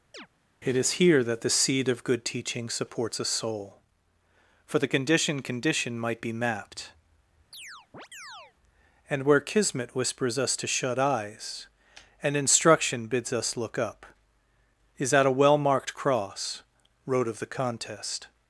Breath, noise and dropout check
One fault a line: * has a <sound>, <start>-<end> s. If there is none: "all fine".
* has a chirp, 0.1-0.3 s
* has a chirp, 7.5-8.5 s